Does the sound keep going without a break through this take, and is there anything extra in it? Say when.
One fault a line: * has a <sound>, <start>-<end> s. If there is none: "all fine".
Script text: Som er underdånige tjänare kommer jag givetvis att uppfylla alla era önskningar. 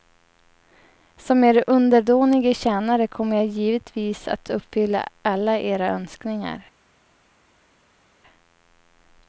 all fine